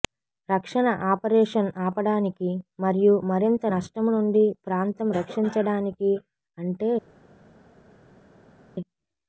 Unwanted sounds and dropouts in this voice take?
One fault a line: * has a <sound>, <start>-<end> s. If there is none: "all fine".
all fine